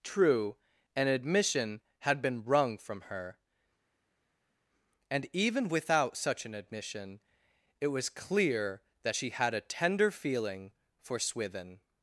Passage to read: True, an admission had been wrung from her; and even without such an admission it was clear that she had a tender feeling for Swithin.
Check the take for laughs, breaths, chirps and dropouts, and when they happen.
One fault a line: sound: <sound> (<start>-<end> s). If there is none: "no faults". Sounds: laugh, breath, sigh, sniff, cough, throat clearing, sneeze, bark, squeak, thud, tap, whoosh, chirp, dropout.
no faults